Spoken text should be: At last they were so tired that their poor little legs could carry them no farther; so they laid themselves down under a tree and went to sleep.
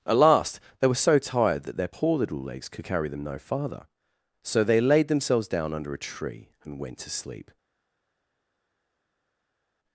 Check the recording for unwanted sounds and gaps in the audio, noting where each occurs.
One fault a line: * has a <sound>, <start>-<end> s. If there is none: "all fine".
all fine